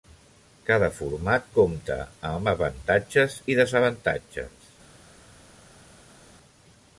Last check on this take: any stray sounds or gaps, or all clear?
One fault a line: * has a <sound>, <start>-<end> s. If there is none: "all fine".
all fine